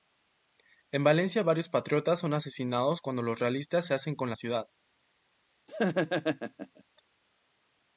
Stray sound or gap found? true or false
true